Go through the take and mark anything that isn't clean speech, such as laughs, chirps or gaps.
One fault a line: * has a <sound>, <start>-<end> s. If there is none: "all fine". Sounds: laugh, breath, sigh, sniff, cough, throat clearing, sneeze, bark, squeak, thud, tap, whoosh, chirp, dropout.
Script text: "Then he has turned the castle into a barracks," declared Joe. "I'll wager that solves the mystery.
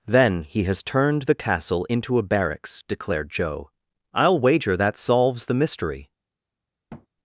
* has a thud, 6.9-7.1 s